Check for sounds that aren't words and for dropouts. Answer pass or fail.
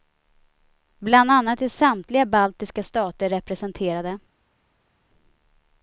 pass